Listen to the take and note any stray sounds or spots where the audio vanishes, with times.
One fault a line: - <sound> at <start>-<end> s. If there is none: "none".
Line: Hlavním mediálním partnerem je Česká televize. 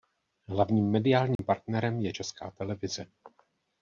- dropout at 1.4-1.4 s